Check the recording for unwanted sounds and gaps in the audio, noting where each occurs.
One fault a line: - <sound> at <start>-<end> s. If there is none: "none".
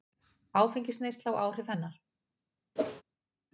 - whoosh at 2.8-3.0 s